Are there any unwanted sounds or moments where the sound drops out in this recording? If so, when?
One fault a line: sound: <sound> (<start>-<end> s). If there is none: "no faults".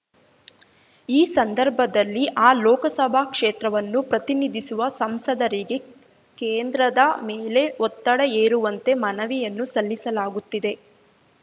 no faults